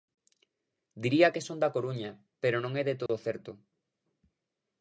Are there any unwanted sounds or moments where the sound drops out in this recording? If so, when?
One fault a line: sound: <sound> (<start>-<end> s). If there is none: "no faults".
sound: dropout (3.1-3.1 s)